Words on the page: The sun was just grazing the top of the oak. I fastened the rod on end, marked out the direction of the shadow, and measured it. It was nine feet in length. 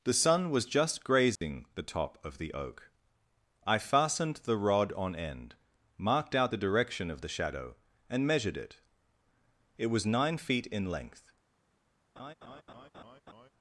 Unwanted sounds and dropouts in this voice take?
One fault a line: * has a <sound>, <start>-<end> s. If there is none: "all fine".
* has a dropout, 1.4-1.4 s
* has a laugh, 12.2-13.5 s